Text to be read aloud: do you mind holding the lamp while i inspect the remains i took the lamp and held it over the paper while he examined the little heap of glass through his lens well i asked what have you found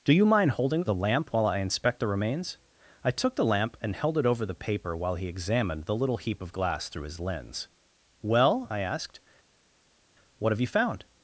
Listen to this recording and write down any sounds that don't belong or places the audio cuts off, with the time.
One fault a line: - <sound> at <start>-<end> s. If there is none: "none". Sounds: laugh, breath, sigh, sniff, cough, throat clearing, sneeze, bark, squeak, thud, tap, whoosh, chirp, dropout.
none